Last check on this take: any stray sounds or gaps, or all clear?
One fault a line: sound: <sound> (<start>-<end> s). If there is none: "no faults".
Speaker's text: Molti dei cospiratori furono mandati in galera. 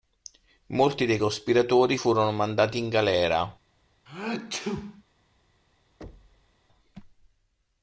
sound: sneeze (4.1-5.0 s)
sound: thud (6.0-6.5 s)